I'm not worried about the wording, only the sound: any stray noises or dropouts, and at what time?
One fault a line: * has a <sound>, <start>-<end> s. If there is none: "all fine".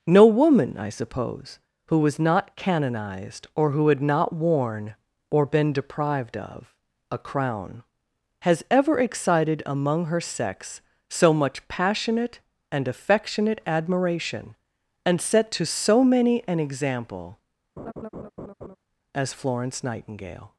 * has a laugh, 17.8-18.8 s